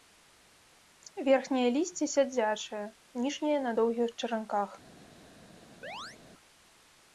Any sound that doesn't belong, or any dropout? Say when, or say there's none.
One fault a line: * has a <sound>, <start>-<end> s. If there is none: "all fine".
* has a chirp, 5.8-6.2 s